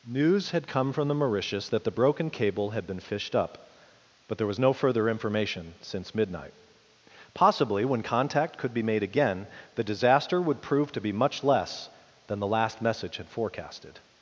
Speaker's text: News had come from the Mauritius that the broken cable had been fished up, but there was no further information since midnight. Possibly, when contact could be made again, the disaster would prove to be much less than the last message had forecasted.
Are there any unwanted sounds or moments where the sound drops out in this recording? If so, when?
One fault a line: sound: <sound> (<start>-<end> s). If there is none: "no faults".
no faults